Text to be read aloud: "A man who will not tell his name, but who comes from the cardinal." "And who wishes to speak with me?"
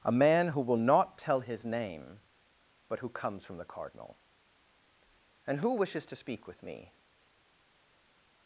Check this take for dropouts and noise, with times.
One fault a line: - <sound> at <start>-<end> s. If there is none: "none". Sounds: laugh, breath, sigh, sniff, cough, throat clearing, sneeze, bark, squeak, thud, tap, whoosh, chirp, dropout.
none